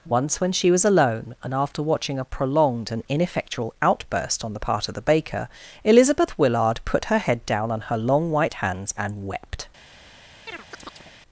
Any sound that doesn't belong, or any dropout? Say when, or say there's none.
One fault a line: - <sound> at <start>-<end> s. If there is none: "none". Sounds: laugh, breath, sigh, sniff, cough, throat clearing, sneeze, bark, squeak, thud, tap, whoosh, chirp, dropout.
- chirp at 10.5-11.1 s